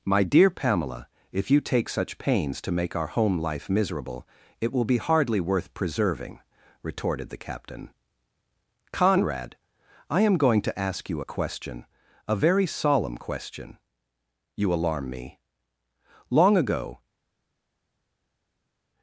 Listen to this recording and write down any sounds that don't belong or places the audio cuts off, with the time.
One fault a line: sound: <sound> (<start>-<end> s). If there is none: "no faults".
no faults